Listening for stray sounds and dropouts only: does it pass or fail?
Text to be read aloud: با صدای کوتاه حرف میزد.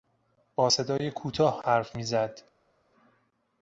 pass